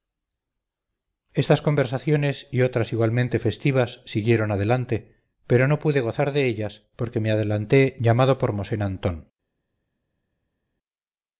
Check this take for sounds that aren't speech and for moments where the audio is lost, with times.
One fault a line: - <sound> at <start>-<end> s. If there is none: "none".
none